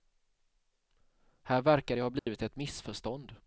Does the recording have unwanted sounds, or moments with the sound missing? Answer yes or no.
yes